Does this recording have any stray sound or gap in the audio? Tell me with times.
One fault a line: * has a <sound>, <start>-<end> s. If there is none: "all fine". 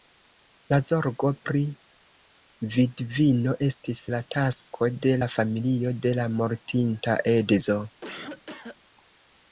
* has a cough, 8.0-8.8 s